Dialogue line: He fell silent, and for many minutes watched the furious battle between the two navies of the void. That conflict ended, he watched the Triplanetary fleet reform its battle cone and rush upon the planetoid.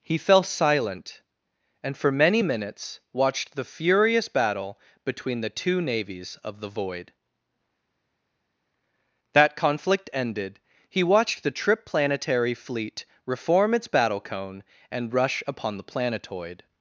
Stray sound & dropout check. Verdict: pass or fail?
pass